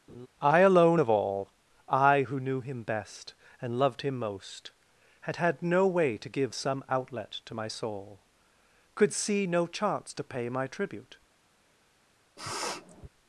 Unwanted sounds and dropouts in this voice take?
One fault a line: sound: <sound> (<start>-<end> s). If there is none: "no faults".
sound: laugh (0.1-0.3 s)
sound: sniff (12.4-13.1 s)